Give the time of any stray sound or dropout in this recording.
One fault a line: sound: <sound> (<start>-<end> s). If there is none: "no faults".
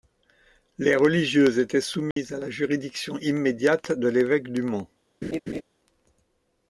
sound: dropout (2.1-2.2 s)
sound: laugh (5.2-5.6 s)